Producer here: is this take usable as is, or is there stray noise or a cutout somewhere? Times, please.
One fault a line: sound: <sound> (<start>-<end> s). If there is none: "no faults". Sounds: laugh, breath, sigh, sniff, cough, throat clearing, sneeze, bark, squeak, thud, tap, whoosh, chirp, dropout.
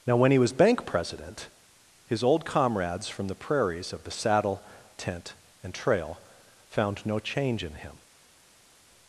no faults